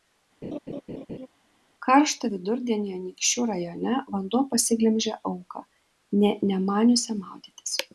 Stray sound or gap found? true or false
true